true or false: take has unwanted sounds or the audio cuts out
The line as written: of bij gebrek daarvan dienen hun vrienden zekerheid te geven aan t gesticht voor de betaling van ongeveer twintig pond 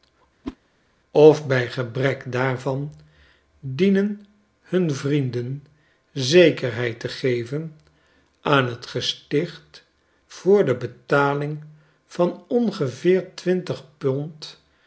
true